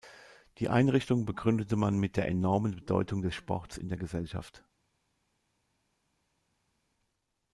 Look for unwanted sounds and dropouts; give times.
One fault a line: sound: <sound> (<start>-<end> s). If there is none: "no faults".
no faults